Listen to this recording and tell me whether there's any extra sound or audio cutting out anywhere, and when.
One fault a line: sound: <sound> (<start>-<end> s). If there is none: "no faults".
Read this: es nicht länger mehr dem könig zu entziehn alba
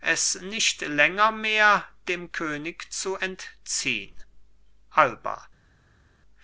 no faults